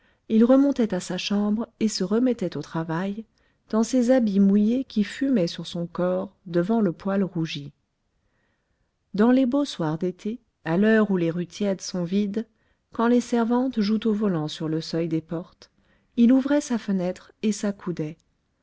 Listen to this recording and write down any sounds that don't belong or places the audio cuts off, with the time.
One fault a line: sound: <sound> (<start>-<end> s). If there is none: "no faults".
no faults